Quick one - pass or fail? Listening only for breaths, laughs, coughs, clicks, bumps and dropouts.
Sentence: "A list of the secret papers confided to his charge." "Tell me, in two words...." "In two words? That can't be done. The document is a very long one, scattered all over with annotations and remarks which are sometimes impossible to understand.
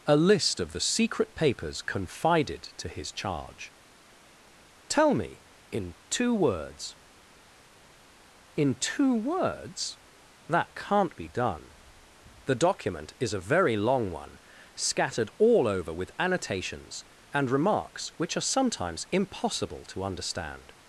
pass